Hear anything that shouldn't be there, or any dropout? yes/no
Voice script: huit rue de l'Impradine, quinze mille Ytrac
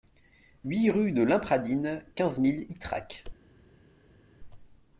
no